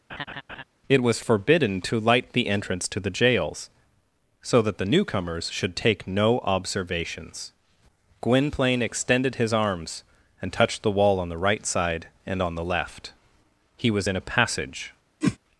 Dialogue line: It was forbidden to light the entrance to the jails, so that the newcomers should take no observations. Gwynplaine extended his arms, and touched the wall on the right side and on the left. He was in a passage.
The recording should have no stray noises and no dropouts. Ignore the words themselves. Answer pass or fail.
fail